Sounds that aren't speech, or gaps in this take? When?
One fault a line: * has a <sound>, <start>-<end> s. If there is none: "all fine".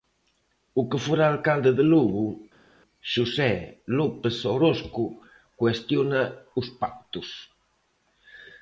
all fine